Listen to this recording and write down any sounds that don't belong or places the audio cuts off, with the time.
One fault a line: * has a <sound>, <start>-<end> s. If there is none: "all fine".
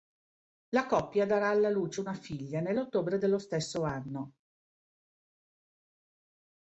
all fine